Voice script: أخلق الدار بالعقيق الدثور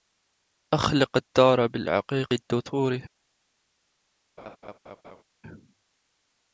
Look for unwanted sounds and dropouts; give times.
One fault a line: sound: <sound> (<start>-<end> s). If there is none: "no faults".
sound: laugh (4.4-5.2 s)